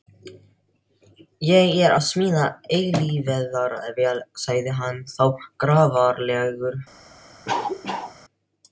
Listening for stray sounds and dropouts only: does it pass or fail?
fail